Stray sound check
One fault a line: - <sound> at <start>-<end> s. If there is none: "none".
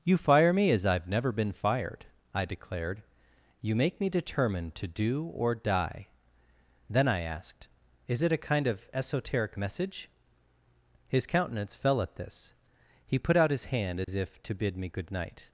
- dropout at 14.0-14.1 s